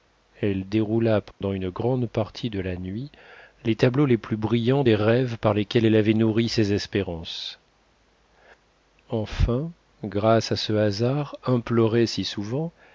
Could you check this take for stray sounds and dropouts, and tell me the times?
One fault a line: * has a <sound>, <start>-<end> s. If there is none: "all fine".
* has a dropout, 1.3-1.4 s